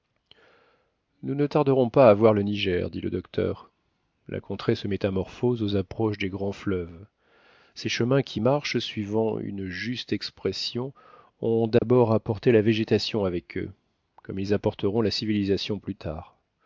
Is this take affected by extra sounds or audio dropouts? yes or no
yes